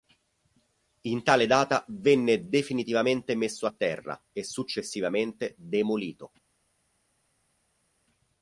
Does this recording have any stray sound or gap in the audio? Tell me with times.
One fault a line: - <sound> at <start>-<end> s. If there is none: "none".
none